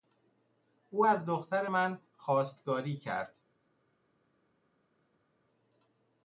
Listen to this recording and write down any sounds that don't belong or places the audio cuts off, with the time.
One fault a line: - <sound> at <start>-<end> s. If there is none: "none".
none